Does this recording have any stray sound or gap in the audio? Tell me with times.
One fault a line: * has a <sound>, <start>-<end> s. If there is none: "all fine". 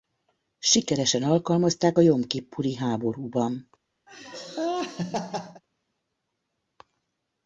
* has a laugh, 4.1-5.6 s